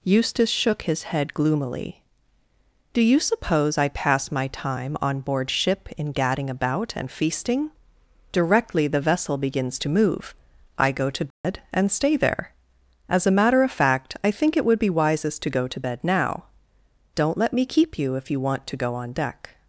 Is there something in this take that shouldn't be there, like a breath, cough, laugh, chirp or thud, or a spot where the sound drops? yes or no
yes